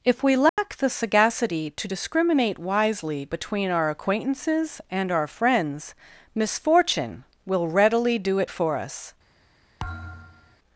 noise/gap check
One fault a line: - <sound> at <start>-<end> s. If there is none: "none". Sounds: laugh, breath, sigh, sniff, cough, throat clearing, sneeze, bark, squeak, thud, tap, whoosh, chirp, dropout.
- dropout at 0.5-0.6 s
- thud at 9.8-10.6 s